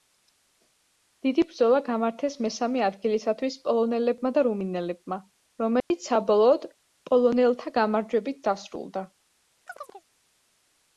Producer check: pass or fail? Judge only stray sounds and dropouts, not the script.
fail